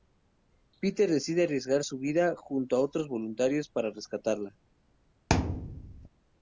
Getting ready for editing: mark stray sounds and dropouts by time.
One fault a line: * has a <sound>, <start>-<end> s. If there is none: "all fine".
* has a thud, 5.3-6.1 s